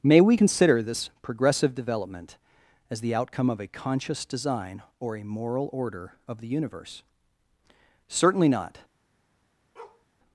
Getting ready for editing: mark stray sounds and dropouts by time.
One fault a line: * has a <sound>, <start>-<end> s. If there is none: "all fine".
* has a bark, 9.8-10.1 s